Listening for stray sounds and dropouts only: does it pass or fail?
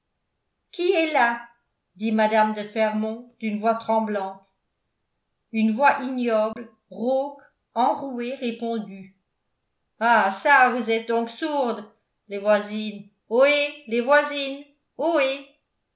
fail